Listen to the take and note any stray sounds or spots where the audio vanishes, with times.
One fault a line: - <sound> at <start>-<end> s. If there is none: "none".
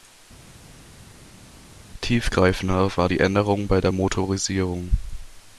none